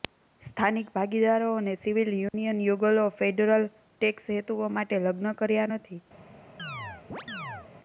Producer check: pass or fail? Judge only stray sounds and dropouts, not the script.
fail